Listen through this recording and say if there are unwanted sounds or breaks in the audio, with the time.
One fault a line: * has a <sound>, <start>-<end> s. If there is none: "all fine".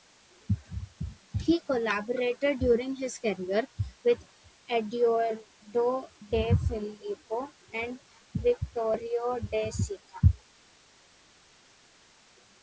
all fine